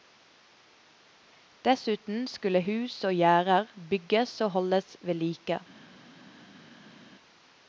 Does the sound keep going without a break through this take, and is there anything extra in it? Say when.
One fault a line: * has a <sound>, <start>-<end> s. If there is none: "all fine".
all fine